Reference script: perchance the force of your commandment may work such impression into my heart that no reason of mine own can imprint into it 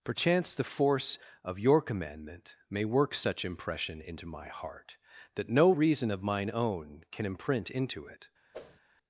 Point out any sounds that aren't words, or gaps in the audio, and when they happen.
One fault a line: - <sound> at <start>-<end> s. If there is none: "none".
- whoosh at 8.5-8.8 s